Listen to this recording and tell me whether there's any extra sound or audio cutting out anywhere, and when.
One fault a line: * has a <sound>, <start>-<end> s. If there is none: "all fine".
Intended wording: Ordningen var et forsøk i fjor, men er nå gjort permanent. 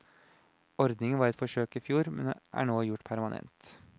all fine